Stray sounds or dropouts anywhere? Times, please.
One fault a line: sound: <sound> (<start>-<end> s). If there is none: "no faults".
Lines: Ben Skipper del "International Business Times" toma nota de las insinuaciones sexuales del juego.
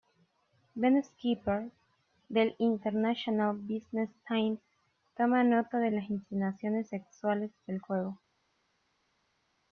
no faults